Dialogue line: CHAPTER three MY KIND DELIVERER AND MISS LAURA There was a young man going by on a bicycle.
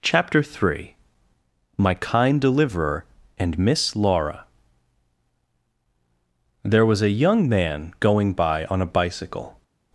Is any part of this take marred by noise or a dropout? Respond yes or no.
no